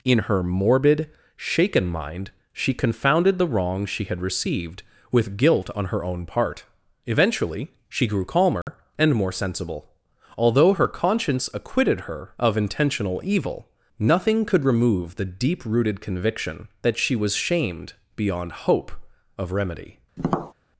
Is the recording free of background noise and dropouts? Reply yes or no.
no